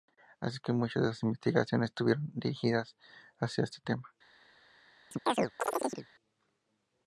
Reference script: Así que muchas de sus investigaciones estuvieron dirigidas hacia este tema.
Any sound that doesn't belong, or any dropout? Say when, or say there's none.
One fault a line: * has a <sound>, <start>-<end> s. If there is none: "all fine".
* has a chirp, 5.1-6.1 s